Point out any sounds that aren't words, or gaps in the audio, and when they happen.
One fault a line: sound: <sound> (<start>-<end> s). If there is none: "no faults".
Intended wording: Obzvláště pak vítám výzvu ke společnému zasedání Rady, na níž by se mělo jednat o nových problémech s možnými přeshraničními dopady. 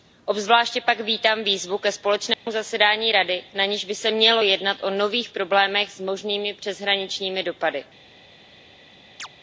sound: dropout (2.3-2.5 s)
sound: chirp (9.2-9.3 s)